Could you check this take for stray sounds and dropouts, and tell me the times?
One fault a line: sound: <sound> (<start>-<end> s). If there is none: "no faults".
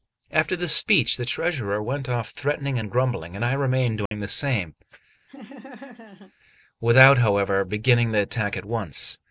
sound: dropout (4.1-4.1 s)
sound: laugh (5.3-6.3 s)